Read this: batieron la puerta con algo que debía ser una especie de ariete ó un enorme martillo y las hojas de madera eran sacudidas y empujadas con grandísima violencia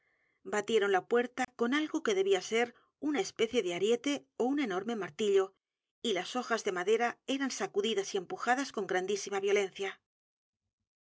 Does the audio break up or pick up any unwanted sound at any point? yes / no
yes